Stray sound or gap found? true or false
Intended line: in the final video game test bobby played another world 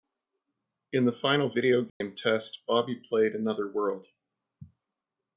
true